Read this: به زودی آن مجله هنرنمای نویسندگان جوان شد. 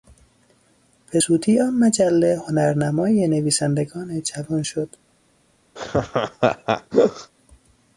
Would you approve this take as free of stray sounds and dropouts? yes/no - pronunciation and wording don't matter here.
no